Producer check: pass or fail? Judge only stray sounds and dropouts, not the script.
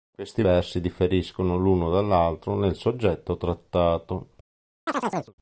fail